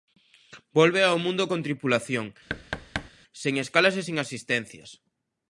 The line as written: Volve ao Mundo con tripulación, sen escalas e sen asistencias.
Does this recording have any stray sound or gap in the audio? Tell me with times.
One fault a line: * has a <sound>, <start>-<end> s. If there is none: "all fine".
* has a thud, 2.5-3.1 s